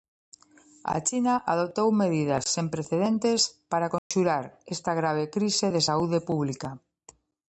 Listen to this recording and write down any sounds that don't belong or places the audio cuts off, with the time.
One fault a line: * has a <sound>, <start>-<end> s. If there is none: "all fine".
* has a dropout, 4.0-4.1 s